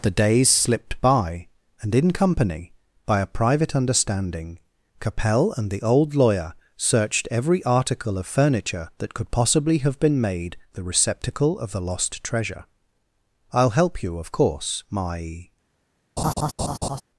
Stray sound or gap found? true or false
true